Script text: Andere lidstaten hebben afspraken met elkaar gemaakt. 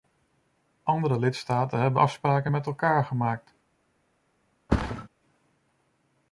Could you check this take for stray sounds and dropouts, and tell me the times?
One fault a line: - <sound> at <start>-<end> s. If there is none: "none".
- thud at 4.7-5.1 s